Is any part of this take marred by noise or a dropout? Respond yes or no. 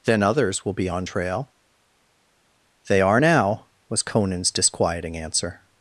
no